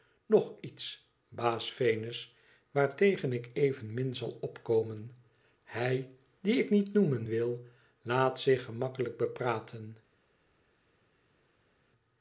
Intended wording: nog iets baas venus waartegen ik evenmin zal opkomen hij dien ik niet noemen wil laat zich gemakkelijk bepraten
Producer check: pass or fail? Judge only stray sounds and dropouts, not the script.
pass